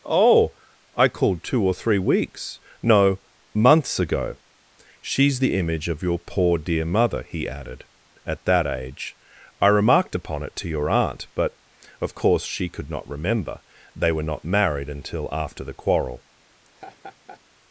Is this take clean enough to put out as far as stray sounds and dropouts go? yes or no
no